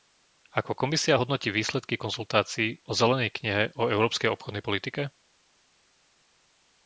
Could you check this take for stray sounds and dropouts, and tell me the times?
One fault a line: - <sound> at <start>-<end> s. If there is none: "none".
none